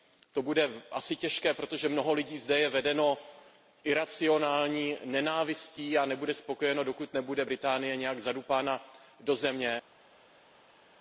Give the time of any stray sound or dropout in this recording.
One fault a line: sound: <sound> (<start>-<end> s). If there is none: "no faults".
no faults